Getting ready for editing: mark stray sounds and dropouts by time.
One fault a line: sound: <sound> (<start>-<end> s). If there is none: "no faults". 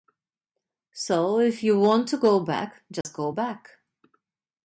sound: dropout (3.0-3.0 s)